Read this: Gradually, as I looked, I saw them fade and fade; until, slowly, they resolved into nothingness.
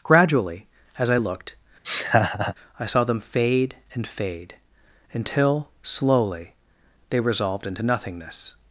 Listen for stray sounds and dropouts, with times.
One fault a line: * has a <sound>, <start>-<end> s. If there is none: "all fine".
* has a laugh, 1.8-2.5 s